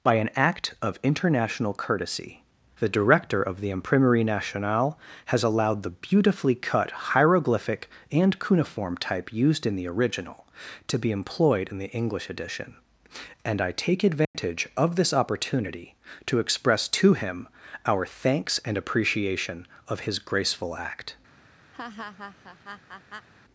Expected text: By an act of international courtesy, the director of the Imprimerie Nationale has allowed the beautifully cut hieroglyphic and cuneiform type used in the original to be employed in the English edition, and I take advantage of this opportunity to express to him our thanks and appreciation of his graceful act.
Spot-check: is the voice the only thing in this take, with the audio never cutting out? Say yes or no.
no